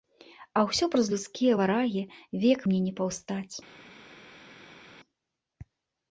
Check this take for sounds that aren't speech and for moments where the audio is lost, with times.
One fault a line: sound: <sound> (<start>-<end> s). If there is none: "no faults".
no faults